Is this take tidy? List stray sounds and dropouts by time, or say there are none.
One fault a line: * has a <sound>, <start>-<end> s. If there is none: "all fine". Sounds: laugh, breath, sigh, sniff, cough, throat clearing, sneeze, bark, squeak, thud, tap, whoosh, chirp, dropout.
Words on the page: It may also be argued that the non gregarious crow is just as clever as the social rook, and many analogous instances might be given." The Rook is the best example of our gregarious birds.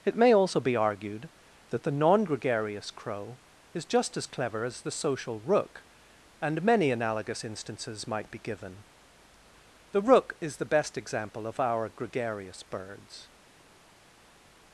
all fine